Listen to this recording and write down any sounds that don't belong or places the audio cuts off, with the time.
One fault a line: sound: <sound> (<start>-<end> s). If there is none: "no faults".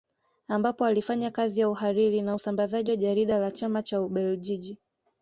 no faults